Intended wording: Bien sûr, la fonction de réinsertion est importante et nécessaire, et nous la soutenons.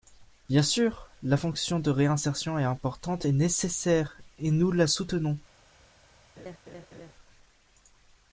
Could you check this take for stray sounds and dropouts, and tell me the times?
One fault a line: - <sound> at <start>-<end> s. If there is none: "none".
- laugh at 6.4-7.1 s